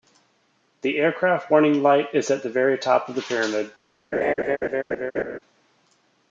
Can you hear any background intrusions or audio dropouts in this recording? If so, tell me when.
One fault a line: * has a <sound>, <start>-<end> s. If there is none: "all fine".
* has a laugh, 4.1-5.4 s